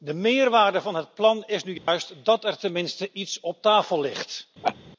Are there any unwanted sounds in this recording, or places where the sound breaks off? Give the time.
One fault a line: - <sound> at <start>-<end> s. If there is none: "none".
- dropout at 1.8-1.9 s
- laugh at 4.6-4.8 s